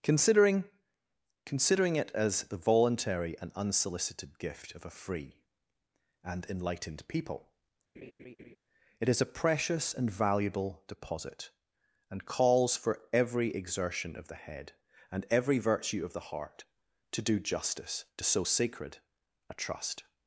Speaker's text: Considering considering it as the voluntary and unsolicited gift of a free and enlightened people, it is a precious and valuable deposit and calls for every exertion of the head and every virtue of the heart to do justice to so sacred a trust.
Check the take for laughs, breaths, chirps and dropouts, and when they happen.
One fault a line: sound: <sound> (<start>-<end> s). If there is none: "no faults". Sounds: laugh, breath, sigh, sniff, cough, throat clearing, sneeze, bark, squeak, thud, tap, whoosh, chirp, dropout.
sound: laugh (7.9-8.6 s)